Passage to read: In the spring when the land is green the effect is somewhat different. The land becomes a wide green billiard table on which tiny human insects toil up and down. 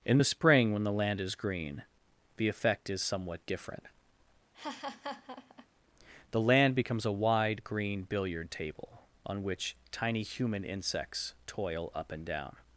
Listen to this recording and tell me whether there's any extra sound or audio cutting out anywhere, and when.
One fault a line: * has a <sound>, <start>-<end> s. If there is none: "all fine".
* has a laugh, 4.5-5.7 s